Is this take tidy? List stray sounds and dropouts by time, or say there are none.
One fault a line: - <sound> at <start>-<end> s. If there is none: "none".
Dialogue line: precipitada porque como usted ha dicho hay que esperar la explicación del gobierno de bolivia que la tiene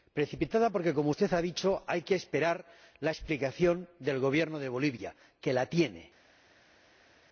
none